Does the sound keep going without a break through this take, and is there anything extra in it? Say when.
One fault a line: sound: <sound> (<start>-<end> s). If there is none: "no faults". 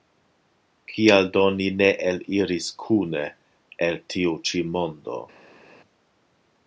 no faults